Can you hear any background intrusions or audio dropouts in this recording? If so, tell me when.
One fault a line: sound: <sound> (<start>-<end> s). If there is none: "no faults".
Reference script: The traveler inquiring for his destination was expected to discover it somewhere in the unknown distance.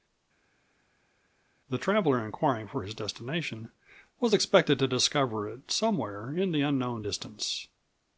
no faults